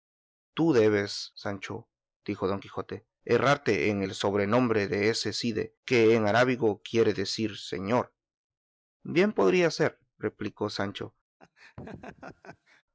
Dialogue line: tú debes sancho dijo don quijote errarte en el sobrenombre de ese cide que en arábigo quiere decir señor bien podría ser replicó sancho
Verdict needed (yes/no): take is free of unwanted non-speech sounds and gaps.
no